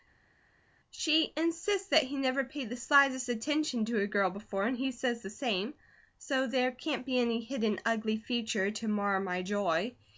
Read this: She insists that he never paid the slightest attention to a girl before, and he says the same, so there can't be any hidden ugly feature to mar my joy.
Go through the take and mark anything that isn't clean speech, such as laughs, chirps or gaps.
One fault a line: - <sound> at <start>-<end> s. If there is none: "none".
none